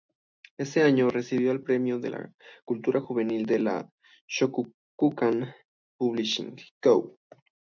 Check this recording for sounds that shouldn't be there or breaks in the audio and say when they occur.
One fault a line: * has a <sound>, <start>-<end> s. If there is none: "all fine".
all fine